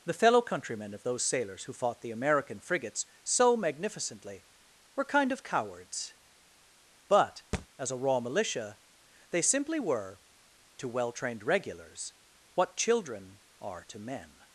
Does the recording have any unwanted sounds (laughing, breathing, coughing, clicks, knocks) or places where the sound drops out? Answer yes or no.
yes